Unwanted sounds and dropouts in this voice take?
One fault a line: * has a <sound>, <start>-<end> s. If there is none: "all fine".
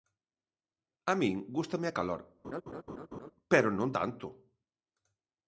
* has a laugh, 2.4-3.3 s